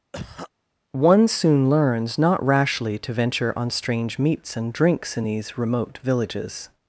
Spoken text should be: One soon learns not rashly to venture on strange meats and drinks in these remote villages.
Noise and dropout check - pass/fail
fail